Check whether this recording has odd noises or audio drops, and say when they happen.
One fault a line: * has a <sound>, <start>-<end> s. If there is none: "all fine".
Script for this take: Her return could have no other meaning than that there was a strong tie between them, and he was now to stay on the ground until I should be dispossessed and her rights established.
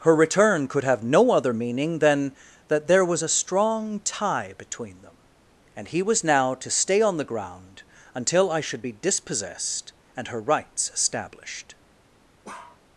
* has a bark, 12.4-12.8 s